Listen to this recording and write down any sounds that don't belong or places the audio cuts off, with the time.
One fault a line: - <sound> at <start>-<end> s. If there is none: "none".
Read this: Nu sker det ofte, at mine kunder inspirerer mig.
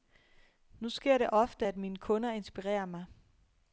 none